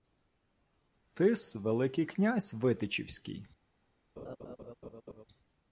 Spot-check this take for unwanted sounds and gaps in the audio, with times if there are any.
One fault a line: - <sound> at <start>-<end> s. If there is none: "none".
- laugh at 4.2-5.2 s